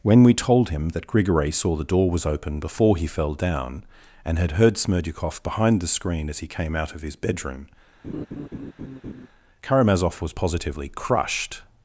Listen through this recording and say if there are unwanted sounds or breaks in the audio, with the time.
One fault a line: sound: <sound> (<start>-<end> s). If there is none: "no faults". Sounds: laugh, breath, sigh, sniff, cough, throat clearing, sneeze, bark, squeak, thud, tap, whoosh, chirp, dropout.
sound: laugh (8.0-9.3 s)